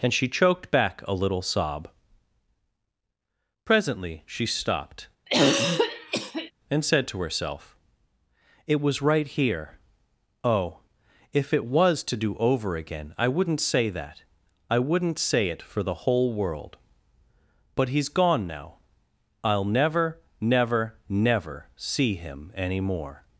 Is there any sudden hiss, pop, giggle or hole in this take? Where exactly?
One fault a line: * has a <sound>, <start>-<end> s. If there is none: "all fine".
* has a throat clearing, 5.3-6.5 s